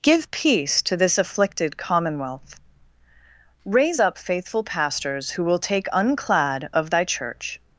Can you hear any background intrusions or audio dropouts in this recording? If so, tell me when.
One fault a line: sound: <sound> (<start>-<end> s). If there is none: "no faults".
no faults